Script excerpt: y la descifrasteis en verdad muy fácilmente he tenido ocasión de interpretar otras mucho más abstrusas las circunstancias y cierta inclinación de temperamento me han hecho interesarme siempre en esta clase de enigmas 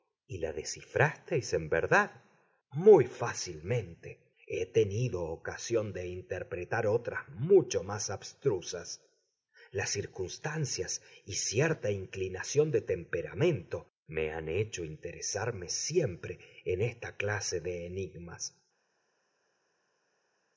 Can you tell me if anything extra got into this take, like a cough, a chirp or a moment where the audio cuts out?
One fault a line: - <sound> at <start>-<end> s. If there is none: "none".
none